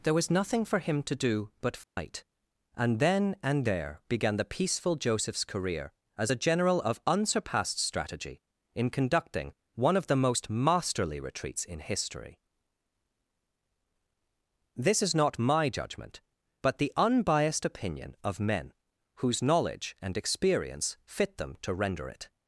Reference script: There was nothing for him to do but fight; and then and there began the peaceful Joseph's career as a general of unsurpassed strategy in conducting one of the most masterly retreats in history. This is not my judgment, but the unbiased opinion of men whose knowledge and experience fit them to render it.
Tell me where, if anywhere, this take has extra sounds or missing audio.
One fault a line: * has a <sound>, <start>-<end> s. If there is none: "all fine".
* has a dropout, 1.8-2.0 s